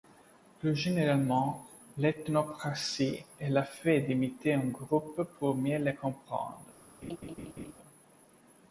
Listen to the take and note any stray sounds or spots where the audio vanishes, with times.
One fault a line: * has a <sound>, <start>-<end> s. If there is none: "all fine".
* has a laugh, 7.0-7.7 s